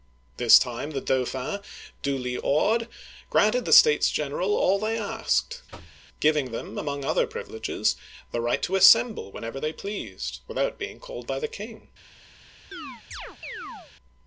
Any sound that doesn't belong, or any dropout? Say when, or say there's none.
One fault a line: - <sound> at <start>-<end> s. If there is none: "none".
- thud at 5.7-6.0 s
- chirp at 12.7-13.9 s